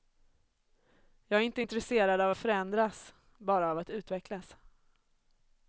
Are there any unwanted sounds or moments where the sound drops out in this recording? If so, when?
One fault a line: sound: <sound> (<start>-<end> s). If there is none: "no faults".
no faults